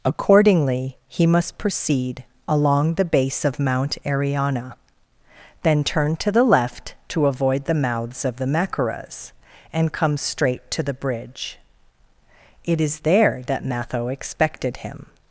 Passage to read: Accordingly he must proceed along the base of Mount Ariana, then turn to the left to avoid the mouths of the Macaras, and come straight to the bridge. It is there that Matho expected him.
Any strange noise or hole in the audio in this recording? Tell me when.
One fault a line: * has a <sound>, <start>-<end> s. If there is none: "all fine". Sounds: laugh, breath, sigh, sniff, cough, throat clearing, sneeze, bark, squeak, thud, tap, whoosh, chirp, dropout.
all fine